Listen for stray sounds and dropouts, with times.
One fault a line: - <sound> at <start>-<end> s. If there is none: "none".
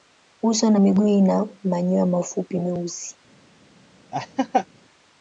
- laugh at 4.1-4.7 s